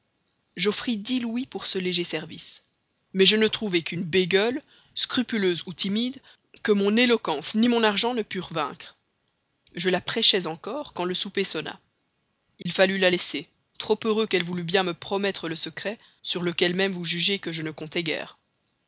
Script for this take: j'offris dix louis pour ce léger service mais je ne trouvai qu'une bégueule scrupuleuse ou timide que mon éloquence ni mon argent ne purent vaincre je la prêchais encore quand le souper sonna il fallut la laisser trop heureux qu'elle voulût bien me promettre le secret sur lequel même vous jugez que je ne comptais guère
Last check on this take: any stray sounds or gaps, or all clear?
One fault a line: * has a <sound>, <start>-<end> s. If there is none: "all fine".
* has a dropout, 12.6-12.7 s